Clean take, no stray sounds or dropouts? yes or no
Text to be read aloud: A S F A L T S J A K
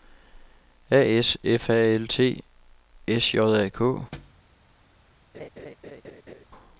no